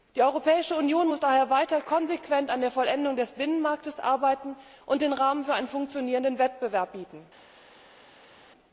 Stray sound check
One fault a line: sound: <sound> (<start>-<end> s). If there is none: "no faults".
no faults